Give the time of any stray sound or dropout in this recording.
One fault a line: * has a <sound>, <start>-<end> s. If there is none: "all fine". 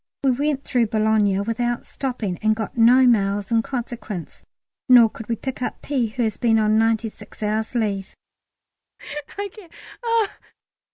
* has a laugh, 9.0-10.5 s